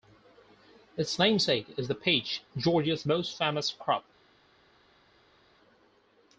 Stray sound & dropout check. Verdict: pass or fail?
pass